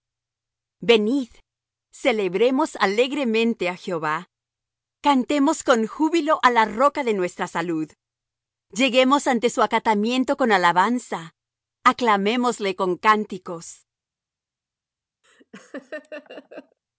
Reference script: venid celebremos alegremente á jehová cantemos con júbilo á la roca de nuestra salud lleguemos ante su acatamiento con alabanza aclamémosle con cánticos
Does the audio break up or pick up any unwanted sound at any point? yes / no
yes